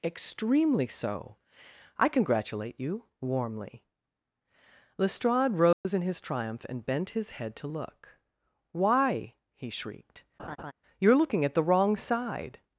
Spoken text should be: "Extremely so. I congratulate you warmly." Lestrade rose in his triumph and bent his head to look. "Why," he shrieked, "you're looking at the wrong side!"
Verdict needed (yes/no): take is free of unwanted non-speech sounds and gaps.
no